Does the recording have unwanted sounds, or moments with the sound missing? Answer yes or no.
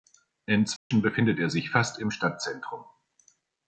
yes